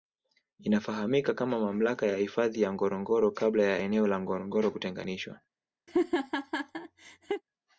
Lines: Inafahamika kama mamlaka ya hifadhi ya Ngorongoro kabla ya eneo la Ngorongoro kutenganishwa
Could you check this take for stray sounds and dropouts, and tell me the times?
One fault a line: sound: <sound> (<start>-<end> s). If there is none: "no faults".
sound: laugh (5.9-7.4 s)